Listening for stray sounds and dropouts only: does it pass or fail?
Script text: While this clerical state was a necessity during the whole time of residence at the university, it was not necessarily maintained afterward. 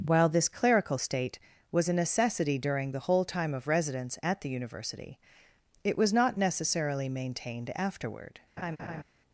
fail